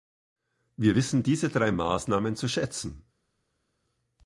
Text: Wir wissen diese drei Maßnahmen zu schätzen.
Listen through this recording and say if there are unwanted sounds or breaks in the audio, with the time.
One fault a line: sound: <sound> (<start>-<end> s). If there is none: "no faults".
no faults